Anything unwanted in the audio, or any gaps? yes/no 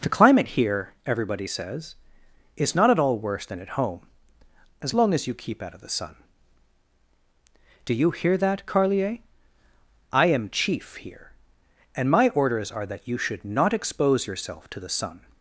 no